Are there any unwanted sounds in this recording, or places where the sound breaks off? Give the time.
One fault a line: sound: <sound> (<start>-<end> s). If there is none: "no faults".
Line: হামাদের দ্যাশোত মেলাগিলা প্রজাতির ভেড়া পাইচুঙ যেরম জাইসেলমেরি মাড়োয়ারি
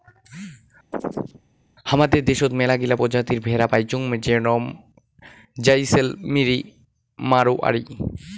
sound: chirp (0.9-1.4 s)